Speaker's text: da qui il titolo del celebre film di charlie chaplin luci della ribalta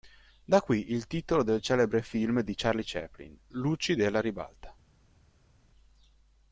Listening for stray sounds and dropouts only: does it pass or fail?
pass